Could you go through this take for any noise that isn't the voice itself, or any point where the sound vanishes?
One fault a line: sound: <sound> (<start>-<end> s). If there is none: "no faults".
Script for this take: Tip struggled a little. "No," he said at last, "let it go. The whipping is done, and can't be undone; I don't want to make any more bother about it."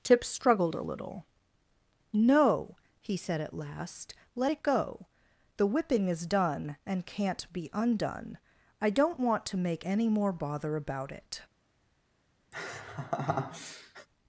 sound: laugh (12.5-14.1 s)